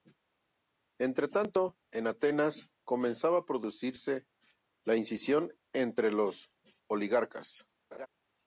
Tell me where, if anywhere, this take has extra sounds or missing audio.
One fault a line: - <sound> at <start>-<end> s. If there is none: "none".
- laugh at 7.9-8.1 s